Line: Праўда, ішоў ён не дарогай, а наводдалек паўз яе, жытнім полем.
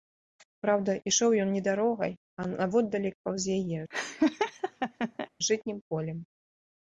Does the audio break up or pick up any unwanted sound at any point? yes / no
yes